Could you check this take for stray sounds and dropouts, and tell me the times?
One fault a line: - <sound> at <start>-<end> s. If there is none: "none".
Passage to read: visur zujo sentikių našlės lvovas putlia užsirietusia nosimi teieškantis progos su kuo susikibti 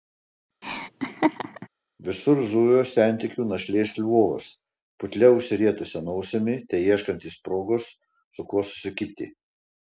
- laugh at 0.6-1.7 s